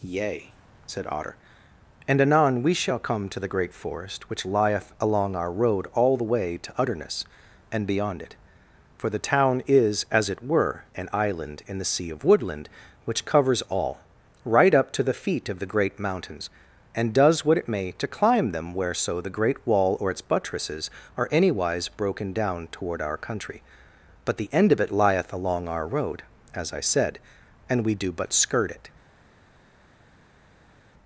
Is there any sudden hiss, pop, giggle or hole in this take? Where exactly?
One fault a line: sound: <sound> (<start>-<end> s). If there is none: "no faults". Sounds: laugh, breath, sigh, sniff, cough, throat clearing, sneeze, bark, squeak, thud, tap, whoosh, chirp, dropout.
no faults